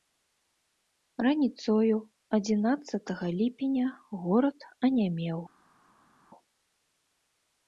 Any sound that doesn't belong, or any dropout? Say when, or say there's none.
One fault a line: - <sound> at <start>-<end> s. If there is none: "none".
none